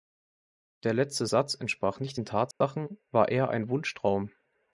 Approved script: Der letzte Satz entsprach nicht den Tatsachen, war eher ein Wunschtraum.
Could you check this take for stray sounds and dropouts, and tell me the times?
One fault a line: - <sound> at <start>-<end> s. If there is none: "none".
- dropout at 2.5-2.6 s